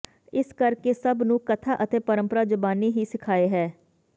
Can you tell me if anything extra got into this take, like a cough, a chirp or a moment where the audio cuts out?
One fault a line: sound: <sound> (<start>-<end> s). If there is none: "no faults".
no faults